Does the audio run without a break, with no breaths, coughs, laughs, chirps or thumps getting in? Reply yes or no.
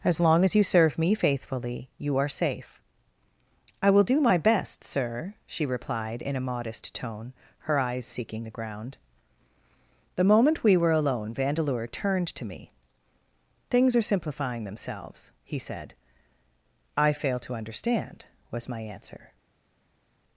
yes